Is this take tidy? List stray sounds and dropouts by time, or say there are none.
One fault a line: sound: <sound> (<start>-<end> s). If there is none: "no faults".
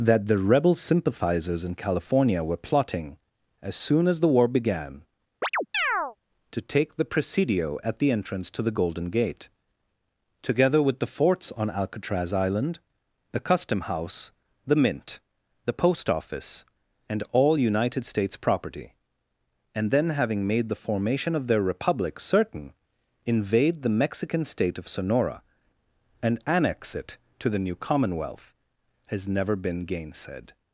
sound: chirp (5.4-6.2 s)